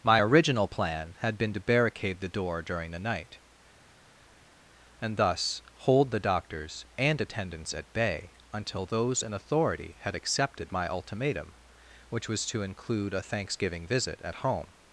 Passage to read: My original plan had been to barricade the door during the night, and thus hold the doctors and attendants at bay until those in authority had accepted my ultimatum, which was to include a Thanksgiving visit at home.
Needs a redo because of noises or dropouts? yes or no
no